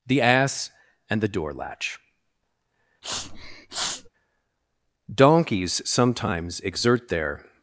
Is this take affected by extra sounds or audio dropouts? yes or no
yes